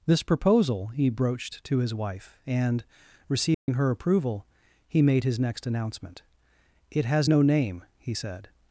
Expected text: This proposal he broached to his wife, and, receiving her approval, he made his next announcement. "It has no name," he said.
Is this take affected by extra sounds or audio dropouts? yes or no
yes